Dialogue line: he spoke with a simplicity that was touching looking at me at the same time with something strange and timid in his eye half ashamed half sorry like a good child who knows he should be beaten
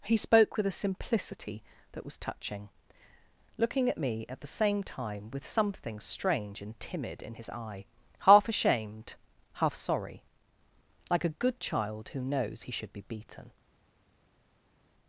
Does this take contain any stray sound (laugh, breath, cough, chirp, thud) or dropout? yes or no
no